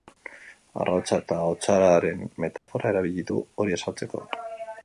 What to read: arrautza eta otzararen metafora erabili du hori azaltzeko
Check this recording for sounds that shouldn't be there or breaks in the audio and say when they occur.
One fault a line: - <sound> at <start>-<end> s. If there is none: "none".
- dropout at 2.6-2.7 s